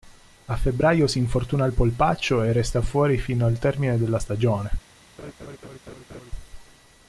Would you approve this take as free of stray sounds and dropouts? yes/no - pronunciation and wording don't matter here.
no